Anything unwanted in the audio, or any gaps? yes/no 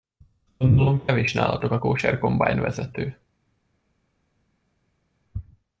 no